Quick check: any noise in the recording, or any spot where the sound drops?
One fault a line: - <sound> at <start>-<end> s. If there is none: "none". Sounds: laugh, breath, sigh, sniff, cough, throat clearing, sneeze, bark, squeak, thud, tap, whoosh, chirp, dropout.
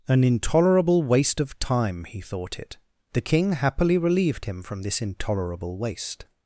none